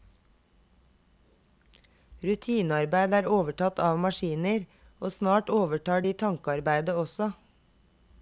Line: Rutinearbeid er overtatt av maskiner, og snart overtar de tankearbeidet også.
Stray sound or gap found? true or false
false